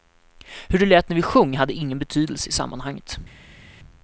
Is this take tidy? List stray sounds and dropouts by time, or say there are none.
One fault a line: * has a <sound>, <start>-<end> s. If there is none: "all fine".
all fine